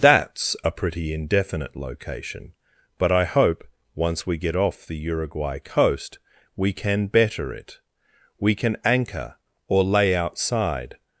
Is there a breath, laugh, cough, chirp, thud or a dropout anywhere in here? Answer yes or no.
no